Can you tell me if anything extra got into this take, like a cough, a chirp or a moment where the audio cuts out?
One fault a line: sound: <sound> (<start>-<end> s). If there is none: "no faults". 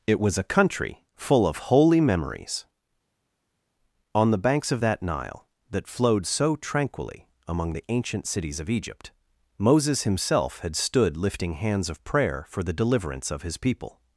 no faults